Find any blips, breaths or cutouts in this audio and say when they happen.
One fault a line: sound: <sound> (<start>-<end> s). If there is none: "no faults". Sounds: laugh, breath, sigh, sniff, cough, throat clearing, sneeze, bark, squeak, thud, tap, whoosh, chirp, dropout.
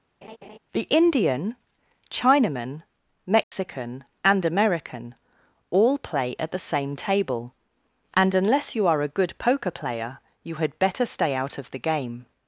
sound: laugh (0.2-0.6 s)
sound: dropout (3.4-3.5 s)